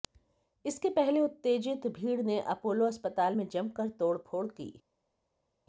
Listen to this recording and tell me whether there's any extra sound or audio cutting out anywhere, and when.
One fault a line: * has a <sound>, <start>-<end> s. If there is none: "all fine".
all fine